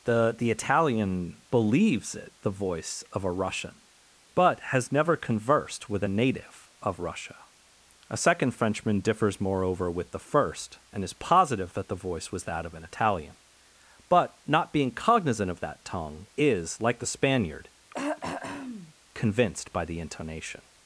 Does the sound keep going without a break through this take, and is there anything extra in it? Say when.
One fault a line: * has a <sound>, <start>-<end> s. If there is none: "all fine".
* has a throat clearing, 17.9-18.9 s